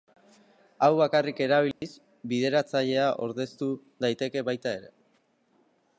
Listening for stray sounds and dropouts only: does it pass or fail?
fail